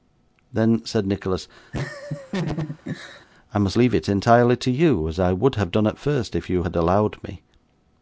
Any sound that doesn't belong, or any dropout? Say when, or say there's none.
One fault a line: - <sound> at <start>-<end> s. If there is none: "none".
- laugh at 1.7-3.3 s